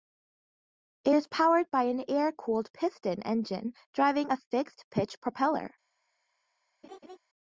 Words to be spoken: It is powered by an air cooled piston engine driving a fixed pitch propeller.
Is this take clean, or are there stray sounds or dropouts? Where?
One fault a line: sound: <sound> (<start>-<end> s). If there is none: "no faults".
sound: laugh (6.8-7.2 s)